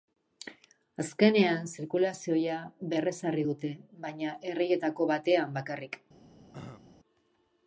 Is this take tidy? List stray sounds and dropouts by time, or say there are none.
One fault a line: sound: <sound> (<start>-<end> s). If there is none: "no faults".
sound: throat clearing (6.5-6.8 s)